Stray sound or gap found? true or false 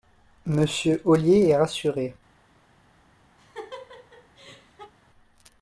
true